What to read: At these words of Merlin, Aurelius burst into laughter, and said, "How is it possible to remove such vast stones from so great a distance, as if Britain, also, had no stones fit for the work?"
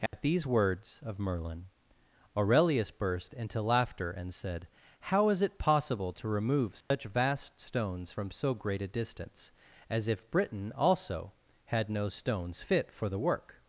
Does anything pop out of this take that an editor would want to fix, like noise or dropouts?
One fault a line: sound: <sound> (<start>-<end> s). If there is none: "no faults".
sound: dropout (0.1-0.1 s)
sound: dropout (6.8-6.9 s)